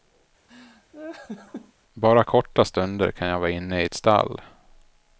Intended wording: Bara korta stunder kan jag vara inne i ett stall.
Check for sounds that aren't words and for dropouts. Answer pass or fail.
fail